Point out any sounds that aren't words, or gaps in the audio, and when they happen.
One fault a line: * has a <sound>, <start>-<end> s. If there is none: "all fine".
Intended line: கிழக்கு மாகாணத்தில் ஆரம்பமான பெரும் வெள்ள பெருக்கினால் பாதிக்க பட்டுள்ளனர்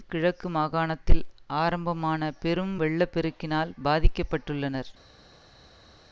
all fine